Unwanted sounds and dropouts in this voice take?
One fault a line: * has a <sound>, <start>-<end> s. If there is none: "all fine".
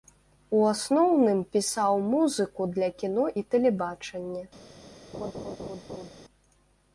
* has a laugh, 5.1-6.1 s